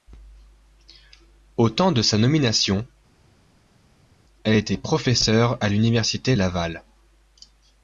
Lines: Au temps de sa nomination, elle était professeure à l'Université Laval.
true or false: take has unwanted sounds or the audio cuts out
false